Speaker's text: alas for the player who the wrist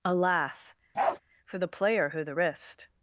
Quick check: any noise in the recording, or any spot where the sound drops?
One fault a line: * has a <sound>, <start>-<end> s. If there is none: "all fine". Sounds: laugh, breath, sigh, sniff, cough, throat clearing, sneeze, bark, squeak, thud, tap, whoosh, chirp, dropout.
* has a bark, 0.9-1.2 s